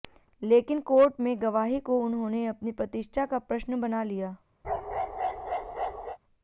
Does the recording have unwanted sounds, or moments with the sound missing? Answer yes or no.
yes